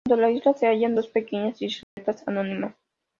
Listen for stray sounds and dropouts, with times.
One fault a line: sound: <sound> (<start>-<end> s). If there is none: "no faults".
sound: dropout (1.8-2.0 s)